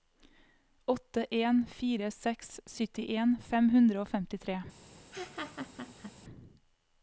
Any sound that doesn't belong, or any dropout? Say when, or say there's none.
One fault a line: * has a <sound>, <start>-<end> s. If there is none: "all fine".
* has a laugh, 5.1-6.1 s